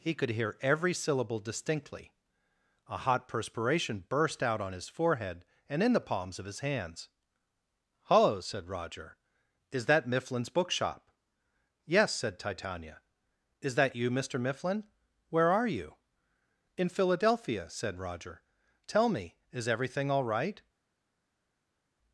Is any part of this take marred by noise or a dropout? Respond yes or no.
no